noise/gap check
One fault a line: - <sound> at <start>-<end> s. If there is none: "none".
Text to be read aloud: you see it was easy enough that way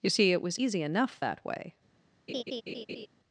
- laugh at 2.3-3.1 s